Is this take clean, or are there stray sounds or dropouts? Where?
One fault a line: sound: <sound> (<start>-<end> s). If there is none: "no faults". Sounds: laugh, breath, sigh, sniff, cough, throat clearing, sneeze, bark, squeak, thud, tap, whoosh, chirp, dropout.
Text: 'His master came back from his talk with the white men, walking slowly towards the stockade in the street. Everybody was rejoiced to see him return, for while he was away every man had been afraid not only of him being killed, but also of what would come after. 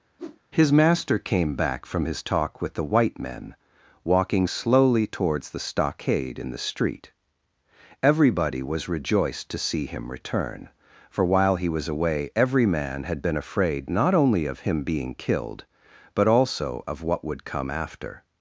sound: whoosh (0.2-0.4 s)